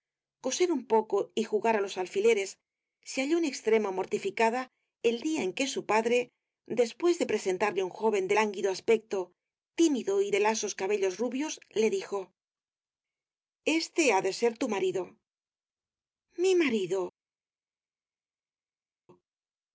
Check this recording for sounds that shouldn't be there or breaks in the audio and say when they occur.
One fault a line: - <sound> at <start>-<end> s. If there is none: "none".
none